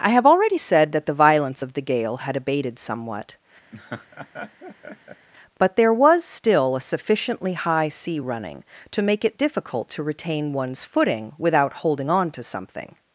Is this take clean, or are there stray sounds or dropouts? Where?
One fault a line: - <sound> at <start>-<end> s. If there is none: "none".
- laugh at 3.7-5.3 s